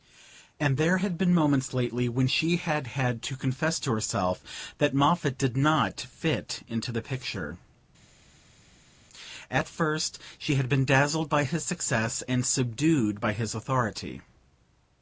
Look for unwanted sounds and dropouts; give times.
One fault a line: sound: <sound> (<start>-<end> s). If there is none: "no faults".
no faults